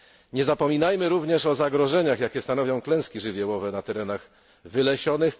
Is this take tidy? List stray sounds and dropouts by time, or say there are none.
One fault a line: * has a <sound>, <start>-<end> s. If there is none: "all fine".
all fine